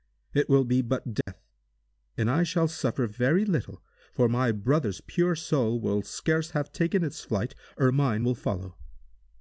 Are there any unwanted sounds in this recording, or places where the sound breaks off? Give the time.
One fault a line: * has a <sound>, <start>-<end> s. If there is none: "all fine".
* has a dropout, 1.2-1.3 s